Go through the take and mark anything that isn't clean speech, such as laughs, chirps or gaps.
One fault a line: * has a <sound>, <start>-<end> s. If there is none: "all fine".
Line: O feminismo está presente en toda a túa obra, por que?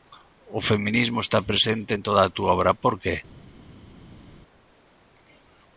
all fine